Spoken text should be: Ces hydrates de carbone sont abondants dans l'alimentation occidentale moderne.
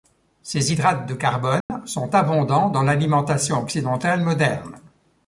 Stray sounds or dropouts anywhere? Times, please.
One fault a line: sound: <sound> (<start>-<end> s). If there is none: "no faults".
sound: dropout (1.6-1.7 s)